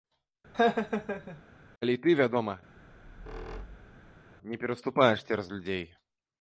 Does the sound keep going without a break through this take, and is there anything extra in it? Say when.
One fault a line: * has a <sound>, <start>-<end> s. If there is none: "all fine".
* has a laugh, 0.5-1.4 s
* has a squeak, 2.8-4.3 s